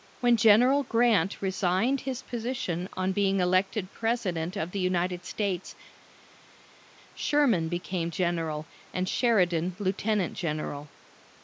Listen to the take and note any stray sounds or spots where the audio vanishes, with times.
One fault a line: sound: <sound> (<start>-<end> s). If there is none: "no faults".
no faults